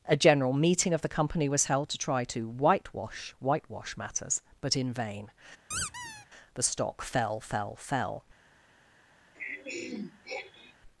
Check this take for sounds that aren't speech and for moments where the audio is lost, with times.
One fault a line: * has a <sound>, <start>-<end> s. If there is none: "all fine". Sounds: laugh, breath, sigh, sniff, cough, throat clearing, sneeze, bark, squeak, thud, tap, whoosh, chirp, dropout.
* has a squeak, 5.7-6.3 s
* has a throat clearing, 9.3-10.8 s